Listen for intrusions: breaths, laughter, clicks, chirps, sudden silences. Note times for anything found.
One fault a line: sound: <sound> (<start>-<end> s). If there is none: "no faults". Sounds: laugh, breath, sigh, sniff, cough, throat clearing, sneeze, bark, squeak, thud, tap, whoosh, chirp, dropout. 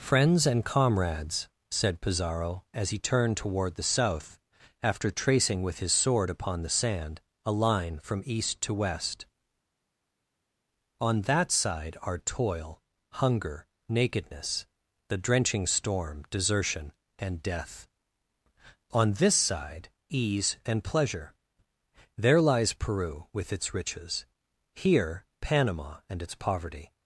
no faults